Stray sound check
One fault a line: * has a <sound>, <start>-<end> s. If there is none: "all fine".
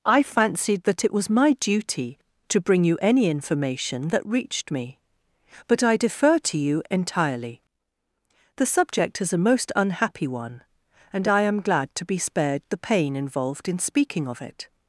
all fine